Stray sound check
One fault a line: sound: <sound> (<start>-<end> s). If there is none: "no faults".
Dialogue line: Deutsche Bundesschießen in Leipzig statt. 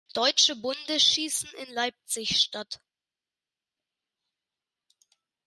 no faults